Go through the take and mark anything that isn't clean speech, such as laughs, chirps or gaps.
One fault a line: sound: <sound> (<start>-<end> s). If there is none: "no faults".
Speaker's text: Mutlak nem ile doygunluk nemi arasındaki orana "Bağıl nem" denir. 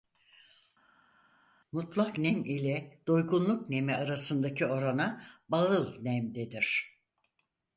no faults